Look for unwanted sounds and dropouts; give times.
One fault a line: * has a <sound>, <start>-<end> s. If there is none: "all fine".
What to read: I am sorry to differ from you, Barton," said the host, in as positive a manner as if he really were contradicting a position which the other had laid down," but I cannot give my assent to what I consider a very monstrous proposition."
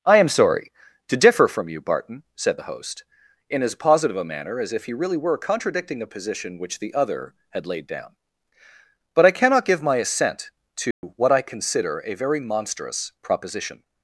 * has a dropout, 10.9-11.0 s